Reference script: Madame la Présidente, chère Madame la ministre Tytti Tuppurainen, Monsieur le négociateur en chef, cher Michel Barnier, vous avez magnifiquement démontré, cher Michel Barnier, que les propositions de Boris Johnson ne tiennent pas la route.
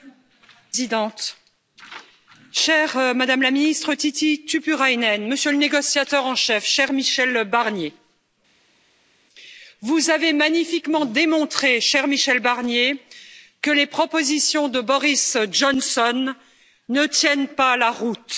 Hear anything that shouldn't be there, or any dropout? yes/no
no